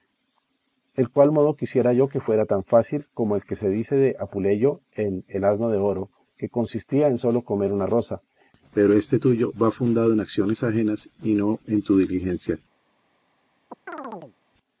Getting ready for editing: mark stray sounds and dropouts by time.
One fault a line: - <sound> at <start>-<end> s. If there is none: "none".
- chirp at 13.7-14.4 s